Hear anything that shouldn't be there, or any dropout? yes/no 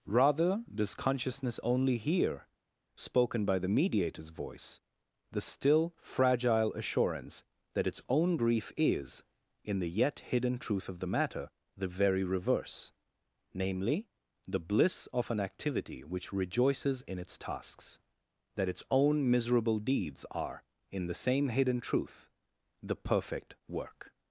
no